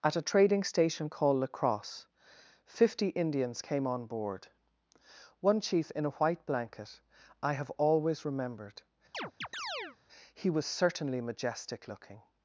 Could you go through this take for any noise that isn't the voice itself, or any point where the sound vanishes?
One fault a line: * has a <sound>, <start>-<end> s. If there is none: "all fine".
* has a chirp, 9.1-10.0 s